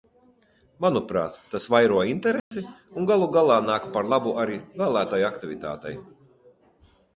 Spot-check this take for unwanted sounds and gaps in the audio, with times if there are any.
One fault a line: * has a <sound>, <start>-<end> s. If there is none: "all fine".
* has a dropout, 2.4-2.5 s